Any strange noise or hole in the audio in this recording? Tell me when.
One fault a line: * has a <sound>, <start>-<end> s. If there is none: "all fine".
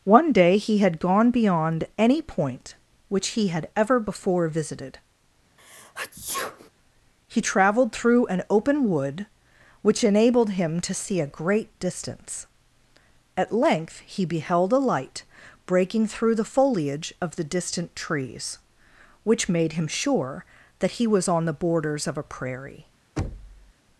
* has a sneeze, 5.6-6.7 s
* has a thud, 23.2-23.7 s